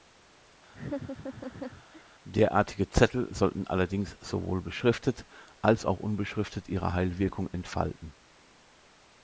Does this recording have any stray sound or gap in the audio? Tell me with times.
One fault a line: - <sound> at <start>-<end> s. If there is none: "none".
- laugh at 0.7-2.0 s